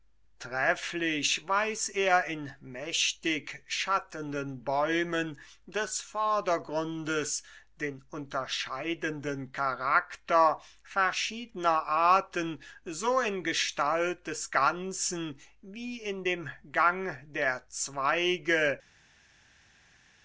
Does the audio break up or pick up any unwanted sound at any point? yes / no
no